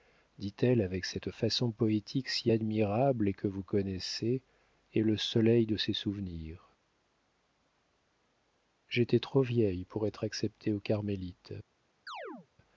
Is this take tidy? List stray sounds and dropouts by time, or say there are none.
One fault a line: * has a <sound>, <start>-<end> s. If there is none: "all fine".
* has a chirp, 12.1-12.5 s